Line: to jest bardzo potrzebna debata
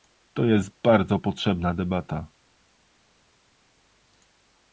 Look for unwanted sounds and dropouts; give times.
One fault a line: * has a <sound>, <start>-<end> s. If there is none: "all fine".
all fine